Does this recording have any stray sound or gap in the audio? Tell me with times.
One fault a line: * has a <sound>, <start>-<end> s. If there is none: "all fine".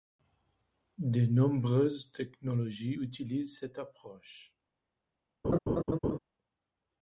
* has a laugh, 5.4-6.2 s